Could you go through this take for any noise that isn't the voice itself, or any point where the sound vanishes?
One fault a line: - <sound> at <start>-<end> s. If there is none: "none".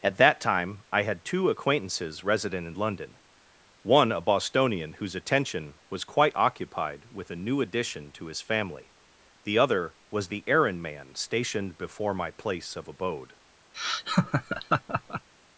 - laugh at 13.7-15.3 s